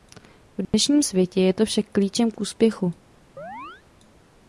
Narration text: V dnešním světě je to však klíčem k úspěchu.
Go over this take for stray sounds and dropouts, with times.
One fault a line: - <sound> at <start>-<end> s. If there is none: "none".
- dropout at 0.6-0.7 s
- chirp at 3.4-3.8 s